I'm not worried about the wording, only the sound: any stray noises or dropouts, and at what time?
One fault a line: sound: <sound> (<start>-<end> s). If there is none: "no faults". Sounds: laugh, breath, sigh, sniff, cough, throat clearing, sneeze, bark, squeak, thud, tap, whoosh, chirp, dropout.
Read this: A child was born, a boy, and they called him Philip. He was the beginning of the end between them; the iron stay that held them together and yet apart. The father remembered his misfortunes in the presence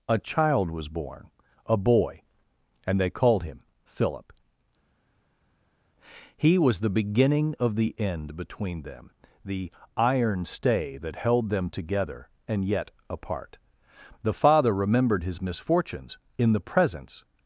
no faults